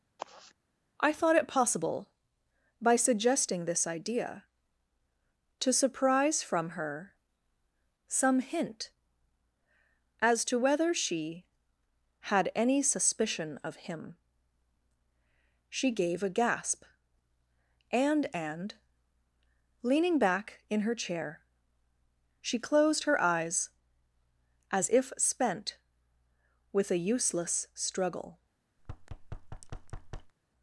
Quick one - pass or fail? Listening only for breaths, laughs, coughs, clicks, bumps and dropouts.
fail